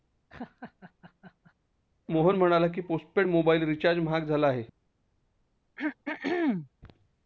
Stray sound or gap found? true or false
true